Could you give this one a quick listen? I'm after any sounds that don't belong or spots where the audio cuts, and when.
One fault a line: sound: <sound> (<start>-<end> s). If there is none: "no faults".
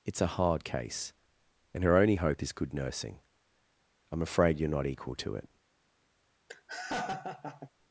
sound: laugh (6.5-7.7 s)